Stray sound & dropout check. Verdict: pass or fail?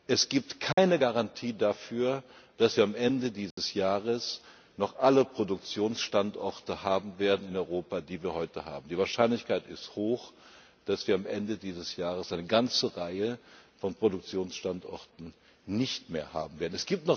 fail